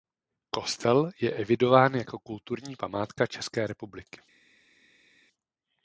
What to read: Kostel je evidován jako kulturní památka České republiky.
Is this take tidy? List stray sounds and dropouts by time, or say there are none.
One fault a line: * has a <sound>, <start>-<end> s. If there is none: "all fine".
all fine